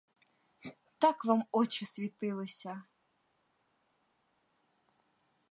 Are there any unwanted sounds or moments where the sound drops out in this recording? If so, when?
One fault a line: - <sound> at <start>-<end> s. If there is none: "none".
none